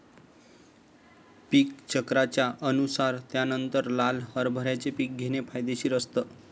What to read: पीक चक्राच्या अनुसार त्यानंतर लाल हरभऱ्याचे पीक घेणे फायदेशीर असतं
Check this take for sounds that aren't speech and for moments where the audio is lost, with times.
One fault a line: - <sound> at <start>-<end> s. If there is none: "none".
none